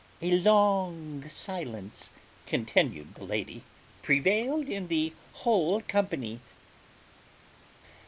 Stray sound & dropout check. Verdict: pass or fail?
pass